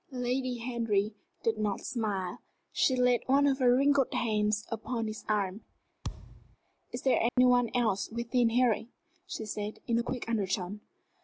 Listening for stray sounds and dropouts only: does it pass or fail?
fail